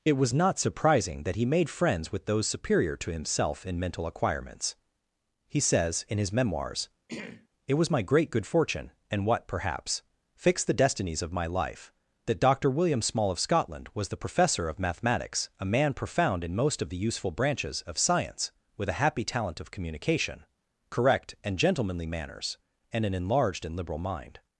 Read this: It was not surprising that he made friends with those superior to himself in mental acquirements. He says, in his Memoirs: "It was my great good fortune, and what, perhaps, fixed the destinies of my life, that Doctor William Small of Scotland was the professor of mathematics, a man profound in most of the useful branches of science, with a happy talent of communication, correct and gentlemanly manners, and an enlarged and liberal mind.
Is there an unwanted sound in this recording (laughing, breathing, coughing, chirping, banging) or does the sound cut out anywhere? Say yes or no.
yes